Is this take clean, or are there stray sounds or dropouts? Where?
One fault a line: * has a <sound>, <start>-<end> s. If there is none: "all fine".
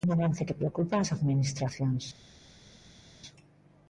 all fine